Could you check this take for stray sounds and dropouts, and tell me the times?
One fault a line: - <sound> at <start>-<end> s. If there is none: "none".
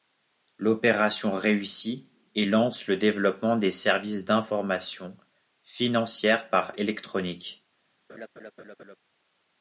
- laugh at 8.1-9.0 s